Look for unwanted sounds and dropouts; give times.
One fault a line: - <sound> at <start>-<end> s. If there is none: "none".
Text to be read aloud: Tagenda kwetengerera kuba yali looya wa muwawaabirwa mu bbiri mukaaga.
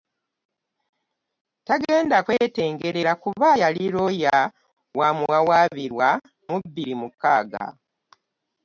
none